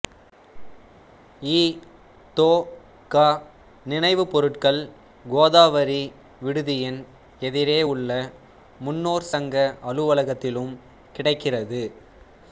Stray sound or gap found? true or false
false